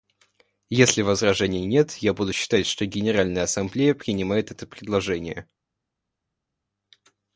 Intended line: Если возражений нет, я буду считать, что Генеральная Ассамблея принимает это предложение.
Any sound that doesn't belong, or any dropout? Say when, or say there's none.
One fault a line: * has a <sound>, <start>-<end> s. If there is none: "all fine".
all fine